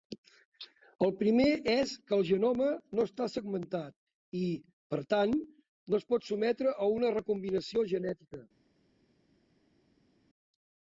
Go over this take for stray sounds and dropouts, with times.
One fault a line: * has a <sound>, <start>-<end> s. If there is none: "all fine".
all fine